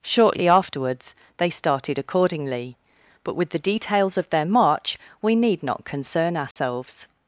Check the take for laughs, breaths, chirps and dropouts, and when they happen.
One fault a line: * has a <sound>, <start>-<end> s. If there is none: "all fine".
* has a dropout, 6.5-6.6 s